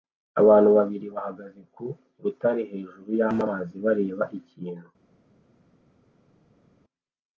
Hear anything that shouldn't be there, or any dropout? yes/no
no